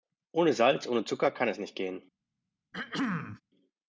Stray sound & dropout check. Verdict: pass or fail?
fail